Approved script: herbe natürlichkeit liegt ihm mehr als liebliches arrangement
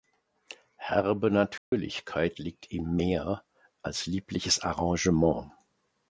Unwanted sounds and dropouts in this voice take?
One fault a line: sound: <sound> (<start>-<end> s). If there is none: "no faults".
sound: dropout (1.6-1.7 s)